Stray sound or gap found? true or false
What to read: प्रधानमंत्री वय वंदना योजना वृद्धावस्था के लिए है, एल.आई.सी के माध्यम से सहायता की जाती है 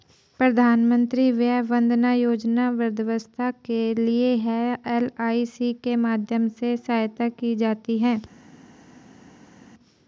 false